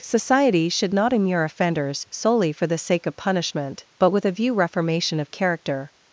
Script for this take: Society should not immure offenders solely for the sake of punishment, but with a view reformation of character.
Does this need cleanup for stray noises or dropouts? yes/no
no